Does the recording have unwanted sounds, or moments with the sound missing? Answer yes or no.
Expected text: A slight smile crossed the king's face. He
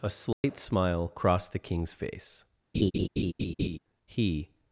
yes